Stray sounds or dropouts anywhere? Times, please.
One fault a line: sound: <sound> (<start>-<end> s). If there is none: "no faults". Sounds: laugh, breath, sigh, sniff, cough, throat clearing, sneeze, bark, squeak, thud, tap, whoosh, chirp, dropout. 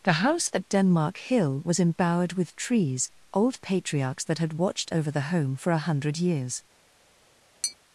sound: tap (7.6-7.8 s)